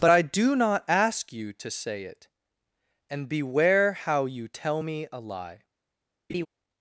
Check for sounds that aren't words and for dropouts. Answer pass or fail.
fail